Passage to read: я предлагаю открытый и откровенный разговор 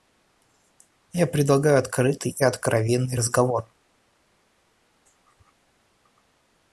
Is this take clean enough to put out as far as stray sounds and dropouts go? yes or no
yes